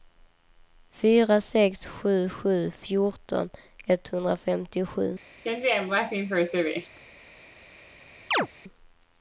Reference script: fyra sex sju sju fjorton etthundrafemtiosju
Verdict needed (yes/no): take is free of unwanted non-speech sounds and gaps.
no